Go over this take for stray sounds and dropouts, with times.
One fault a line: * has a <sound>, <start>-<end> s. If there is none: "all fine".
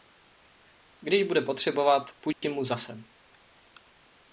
* has a dropout, 2.3-2.4 s